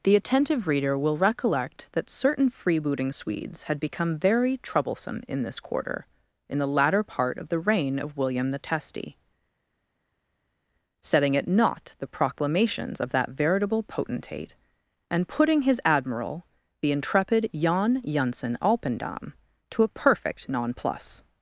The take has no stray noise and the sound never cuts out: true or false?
true